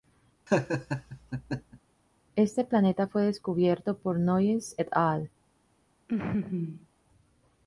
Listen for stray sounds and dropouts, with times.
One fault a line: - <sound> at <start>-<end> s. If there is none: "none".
- laugh at 0.5-1.8 s
- laugh at 6.1-6.9 s